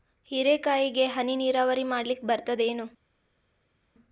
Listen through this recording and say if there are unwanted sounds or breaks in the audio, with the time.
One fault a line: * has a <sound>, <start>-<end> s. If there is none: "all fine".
all fine